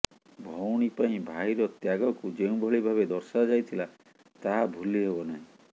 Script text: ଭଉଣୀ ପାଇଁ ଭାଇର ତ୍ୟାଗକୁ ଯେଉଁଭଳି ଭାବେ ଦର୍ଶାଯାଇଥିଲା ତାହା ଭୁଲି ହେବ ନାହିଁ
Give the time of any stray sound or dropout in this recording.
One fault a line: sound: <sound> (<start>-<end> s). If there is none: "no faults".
no faults